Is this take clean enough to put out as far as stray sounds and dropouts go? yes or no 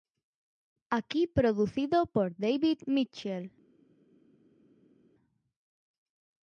yes